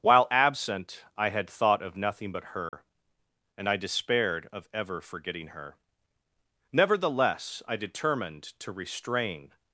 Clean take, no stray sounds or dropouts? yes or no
no